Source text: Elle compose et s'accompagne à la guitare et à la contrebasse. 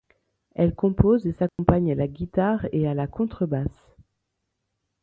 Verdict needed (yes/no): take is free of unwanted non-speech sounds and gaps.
no